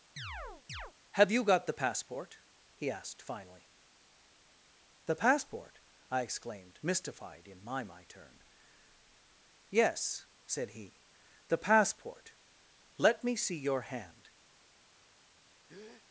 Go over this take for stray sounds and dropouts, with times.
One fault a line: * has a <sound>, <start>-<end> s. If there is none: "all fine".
* has a chirp, 0.2-0.9 s
* has a breath, 15.7-16.0 s